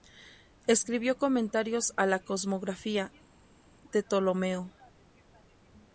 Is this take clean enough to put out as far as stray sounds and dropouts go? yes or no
yes